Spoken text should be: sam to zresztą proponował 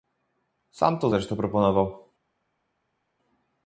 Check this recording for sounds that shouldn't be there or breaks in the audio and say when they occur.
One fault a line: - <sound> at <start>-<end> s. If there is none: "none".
none